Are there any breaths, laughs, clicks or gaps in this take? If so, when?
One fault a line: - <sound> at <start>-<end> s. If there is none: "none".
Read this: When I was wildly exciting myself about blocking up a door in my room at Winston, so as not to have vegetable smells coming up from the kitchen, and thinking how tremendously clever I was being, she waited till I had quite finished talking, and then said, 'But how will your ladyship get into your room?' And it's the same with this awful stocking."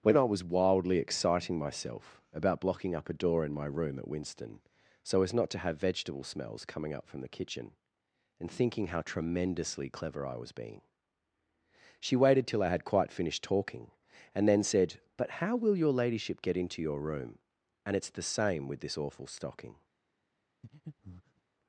- breath at 20.6-21.4 s